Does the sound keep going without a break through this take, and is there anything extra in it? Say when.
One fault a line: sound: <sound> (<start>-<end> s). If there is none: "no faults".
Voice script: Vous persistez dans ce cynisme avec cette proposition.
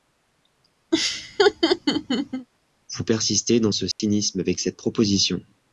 sound: laugh (0.9-2.5 s)
sound: dropout (3.9-4.0 s)